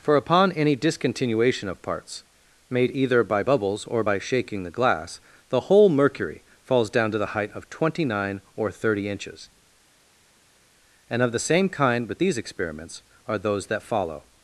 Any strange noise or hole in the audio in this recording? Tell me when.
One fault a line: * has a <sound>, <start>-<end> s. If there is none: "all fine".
all fine